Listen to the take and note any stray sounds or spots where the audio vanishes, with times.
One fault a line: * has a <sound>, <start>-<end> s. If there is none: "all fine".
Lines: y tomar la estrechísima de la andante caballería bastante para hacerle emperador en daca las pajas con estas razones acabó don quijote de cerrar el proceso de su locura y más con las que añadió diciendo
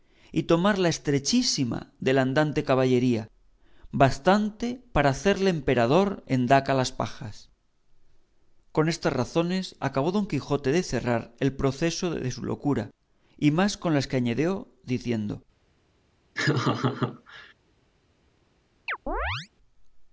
* has a laugh, 16.3-17.5 s
* has a chirp, 18.9-19.5 s